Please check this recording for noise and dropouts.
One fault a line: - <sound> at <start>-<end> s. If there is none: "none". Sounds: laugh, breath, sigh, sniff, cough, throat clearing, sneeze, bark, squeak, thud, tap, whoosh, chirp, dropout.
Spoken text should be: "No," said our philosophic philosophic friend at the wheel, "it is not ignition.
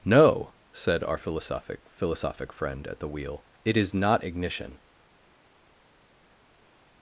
none